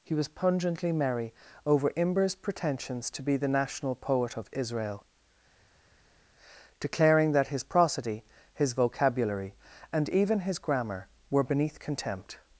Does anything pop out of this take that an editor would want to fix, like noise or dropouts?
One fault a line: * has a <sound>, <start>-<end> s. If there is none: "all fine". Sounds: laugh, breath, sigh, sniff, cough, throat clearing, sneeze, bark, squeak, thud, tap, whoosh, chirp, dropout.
all fine